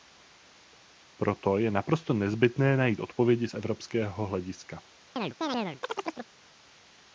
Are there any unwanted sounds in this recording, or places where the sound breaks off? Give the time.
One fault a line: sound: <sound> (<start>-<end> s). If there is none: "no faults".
sound: chirp (5.2-6.3 s)